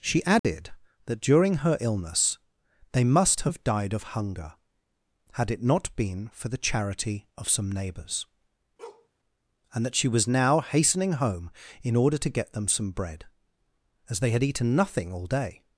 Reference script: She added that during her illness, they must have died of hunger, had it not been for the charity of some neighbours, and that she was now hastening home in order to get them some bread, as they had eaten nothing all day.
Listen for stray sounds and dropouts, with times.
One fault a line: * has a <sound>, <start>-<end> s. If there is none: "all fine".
* has a dropout, 0.4-0.4 s
* has a bark, 8.8-9.1 s